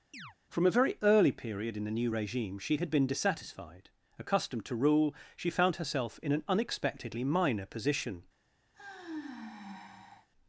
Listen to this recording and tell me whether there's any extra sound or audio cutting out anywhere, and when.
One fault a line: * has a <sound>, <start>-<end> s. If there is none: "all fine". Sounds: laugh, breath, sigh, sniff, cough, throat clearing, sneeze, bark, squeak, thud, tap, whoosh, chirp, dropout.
* has a chirp, 0.1-0.4 s
* has a sigh, 8.7-10.3 s